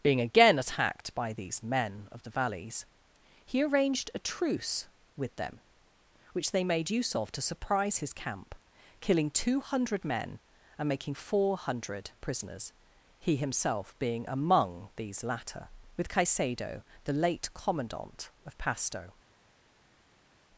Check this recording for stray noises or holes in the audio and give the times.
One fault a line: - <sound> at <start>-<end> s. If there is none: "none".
none